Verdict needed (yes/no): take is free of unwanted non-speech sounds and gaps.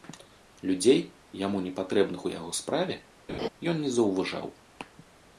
no